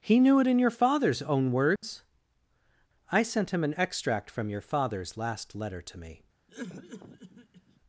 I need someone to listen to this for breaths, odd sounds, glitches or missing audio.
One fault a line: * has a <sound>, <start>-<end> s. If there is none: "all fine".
* has a dropout, 1.8-1.8 s
* has a cough, 6.5-7.8 s